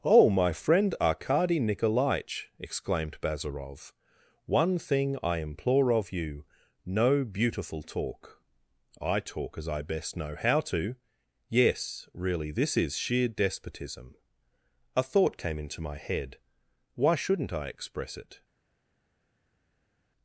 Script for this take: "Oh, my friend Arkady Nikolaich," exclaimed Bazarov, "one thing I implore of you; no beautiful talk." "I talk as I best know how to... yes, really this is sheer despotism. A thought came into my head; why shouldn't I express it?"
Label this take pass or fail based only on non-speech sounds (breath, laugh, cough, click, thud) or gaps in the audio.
pass